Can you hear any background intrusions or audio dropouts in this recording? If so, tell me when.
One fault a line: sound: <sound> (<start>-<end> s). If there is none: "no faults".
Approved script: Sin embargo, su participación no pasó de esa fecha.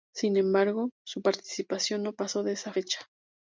no faults